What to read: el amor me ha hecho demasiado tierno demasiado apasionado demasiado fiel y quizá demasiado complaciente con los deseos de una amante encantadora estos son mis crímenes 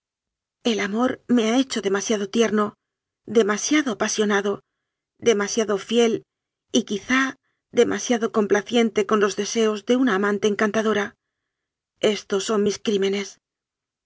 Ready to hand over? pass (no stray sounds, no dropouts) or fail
pass